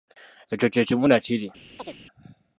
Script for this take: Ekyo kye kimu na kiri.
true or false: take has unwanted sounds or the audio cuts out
true